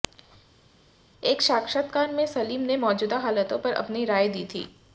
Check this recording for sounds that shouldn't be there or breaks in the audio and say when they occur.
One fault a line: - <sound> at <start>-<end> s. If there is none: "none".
none